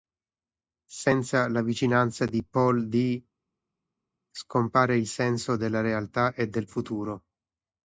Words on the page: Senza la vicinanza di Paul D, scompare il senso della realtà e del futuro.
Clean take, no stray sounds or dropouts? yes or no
yes